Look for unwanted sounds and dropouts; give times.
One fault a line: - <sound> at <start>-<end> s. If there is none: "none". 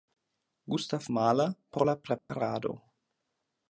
- dropout at 2.2-2.3 s